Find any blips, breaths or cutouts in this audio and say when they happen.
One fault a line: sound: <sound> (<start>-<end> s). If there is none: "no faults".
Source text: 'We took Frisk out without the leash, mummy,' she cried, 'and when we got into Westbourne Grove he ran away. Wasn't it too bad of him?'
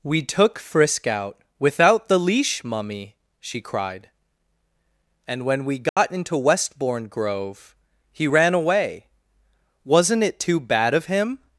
sound: dropout (5.9-6.0 s)